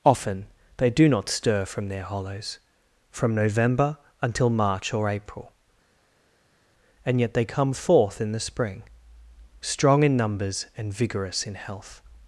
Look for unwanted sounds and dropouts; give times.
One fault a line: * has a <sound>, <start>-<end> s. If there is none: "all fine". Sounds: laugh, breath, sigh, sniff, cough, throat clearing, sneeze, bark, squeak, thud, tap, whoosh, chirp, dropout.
all fine